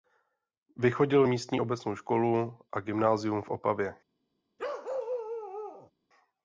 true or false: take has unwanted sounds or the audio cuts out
true